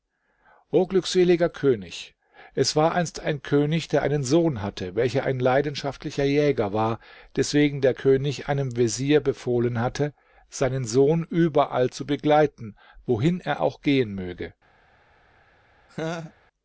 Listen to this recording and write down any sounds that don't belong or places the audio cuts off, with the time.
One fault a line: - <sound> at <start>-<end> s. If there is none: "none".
- laugh at 15.9-16.3 s